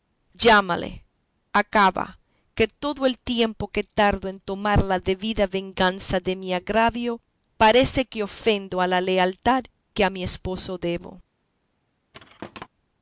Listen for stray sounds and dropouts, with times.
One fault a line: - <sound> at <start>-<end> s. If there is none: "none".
- thud at 12.1-12.7 s